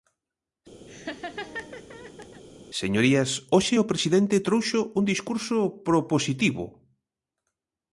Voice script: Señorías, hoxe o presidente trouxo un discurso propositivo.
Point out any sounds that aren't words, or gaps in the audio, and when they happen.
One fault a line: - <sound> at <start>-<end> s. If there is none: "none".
- laugh at 0.9-2.4 s